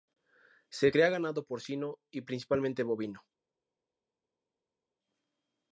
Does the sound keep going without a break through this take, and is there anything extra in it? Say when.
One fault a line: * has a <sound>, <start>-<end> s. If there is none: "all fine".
all fine